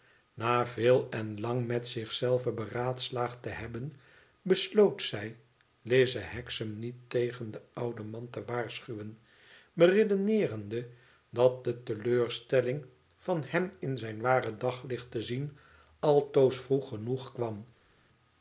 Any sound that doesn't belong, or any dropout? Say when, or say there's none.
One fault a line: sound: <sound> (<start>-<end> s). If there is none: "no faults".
no faults